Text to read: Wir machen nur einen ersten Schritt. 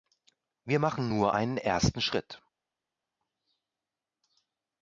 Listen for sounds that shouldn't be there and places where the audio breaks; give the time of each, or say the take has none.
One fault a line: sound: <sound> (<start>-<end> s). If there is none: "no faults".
no faults